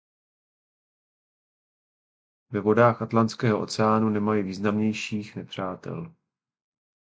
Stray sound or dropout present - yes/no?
no